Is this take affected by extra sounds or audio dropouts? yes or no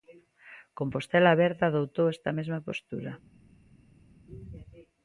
no